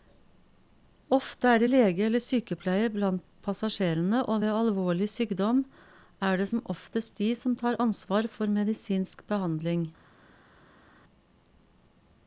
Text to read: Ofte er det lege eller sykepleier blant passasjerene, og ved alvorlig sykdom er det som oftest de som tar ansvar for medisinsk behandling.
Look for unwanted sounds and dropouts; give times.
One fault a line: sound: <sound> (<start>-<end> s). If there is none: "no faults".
no faults